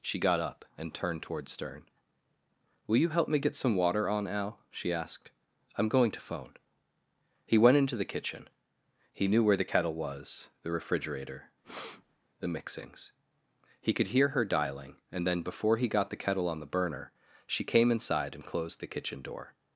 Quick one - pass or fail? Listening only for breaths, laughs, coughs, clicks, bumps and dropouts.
fail